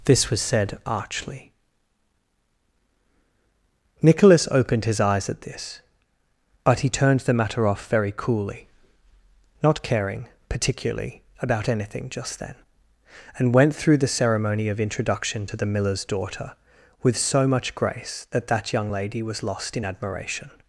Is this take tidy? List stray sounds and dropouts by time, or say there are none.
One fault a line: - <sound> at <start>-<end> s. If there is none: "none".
none